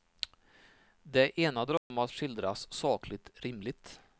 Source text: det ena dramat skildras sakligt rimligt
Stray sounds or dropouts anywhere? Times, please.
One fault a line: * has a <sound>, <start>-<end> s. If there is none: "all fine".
* has a dropout, 1.8-1.9 s